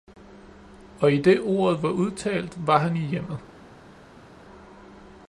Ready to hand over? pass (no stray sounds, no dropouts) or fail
pass